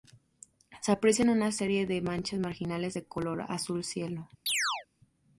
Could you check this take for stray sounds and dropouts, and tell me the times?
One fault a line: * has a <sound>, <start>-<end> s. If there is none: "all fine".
* has a chirp, 4.5-4.9 s